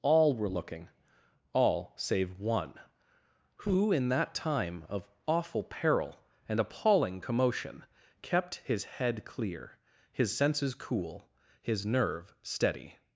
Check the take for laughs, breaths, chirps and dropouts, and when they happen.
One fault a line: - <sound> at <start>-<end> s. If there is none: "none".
none